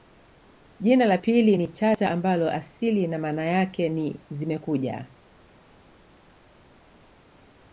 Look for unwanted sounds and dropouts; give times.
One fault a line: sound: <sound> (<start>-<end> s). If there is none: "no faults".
no faults